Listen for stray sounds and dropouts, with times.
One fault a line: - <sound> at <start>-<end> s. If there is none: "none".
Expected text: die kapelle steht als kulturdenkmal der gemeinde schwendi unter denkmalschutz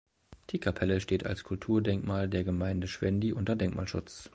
none